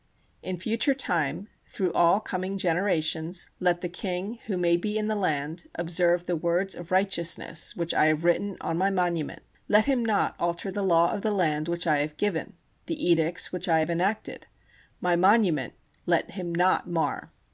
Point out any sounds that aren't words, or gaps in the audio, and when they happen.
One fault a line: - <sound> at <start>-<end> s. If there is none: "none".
none